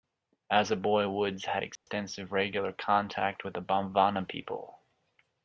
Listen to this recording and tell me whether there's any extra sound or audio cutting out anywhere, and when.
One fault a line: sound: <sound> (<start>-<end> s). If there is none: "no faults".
sound: dropout (1.8-1.9 s)